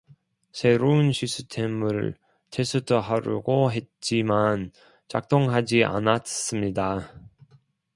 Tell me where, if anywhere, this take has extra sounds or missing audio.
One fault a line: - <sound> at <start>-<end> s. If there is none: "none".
none